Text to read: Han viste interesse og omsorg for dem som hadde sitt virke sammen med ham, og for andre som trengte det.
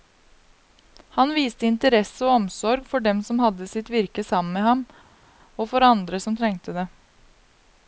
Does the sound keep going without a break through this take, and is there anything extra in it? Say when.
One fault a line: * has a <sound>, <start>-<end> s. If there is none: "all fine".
all fine